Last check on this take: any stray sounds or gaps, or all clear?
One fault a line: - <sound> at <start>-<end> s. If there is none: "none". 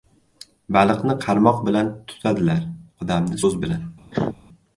- cough at 4.1-4.4 s